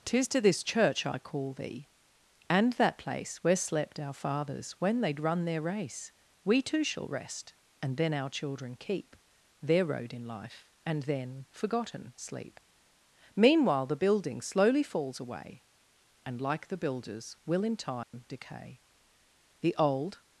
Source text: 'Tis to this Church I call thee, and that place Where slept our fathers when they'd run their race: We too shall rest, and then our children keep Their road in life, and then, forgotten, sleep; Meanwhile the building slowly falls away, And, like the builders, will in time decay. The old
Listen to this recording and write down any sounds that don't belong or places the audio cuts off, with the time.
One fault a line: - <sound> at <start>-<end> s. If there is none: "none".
- dropout at 18.0-18.1 s